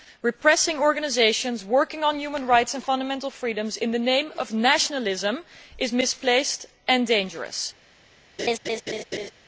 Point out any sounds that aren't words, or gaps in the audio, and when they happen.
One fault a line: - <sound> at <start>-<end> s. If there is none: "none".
- laugh at 8.4-9.3 s